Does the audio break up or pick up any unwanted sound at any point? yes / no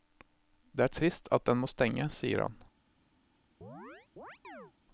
yes